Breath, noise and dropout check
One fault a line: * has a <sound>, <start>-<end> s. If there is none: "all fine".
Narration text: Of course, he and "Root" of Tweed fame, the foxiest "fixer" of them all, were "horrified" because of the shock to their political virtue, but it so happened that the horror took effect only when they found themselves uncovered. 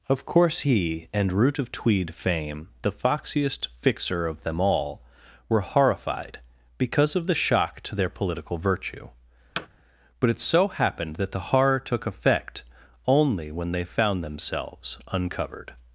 * has a thud, 9.6-9.7 s